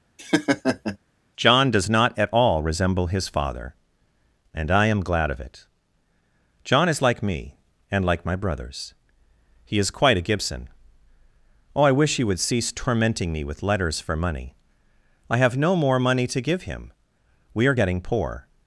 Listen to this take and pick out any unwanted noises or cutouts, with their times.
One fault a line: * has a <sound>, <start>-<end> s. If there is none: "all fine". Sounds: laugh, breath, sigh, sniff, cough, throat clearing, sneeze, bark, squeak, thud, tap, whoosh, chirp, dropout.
* has a laugh, 0.2-1.0 s